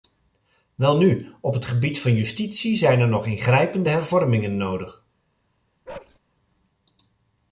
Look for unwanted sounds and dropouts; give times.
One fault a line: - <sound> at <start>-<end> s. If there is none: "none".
- bark at 5.9-6.2 s